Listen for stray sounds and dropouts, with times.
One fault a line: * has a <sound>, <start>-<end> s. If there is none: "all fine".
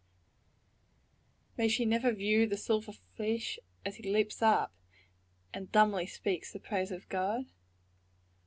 all fine